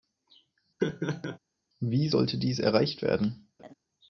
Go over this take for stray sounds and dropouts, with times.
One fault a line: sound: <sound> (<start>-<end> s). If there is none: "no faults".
sound: laugh (0.8-1.4 s)
sound: laugh (3.6-3.7 s)